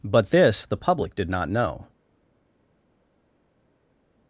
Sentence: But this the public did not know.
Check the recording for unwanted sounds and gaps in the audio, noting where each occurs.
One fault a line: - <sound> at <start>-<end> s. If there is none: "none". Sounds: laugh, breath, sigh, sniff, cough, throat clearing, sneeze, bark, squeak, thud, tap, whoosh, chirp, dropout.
none